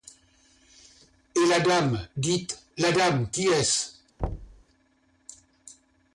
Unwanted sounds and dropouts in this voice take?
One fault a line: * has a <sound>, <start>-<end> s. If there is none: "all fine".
* has a thud, 4.2-4.6 s